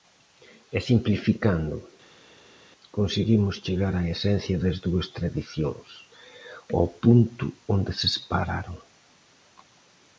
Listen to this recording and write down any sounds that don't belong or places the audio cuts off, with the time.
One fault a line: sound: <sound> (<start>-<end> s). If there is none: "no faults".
no faults